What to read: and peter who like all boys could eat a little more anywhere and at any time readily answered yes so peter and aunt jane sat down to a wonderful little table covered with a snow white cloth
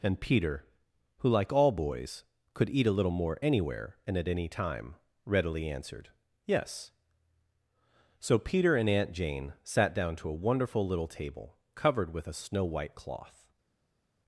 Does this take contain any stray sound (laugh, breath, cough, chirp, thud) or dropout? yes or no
no